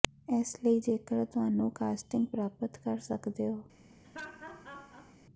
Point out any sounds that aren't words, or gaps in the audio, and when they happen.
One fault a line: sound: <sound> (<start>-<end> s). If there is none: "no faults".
sound: laugh (4.0-5.2 s)